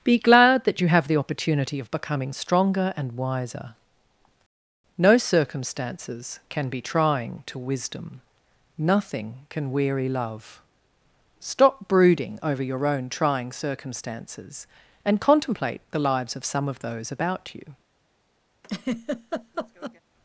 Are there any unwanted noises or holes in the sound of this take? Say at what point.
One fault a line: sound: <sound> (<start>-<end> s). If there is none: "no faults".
sound: laugh (18.6-20.0 s)